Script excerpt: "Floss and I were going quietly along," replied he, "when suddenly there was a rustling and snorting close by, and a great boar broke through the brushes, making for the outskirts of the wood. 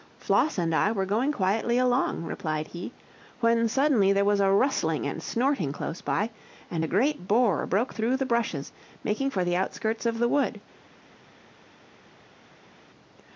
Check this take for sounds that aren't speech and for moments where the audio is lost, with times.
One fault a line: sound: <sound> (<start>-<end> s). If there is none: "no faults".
no faults